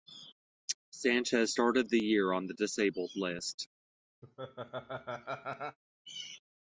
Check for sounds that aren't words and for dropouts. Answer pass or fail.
fail